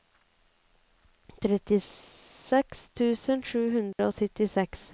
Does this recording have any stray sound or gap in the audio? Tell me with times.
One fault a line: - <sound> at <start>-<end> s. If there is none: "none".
- dropout at 3.9-4.0 s